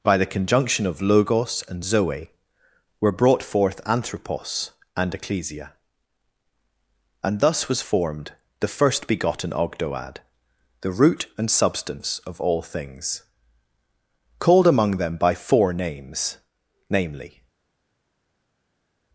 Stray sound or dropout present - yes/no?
no